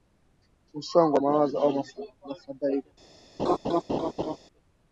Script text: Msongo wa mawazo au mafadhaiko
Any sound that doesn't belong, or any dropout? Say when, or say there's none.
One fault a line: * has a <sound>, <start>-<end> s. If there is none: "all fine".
* has a laugh, 3.4-4.4 s